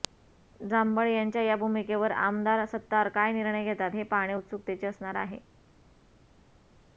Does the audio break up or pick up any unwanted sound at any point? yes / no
no